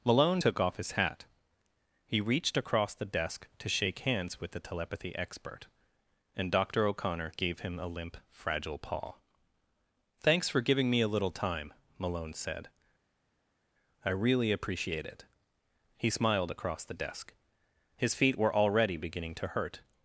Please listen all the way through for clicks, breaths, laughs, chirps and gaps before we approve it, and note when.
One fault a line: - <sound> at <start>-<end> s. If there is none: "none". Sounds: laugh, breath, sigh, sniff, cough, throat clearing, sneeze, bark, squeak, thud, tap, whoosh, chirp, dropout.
none